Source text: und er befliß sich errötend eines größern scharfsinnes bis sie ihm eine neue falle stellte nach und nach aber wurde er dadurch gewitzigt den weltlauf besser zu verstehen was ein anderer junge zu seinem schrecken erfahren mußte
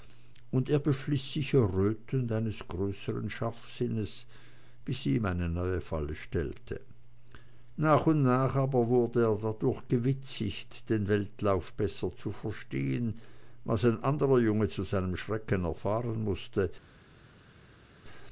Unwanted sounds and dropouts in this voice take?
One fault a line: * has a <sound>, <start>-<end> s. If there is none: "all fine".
all fine